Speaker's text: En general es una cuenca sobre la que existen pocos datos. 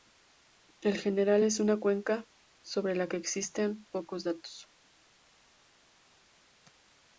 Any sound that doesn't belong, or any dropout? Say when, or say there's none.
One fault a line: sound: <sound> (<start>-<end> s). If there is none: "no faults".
no faults